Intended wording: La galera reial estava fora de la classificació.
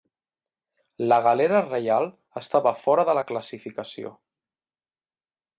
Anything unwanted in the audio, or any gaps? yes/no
no